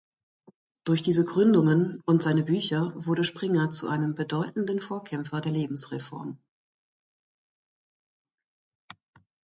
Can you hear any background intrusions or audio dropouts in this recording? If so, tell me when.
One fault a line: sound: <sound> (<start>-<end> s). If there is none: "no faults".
no faults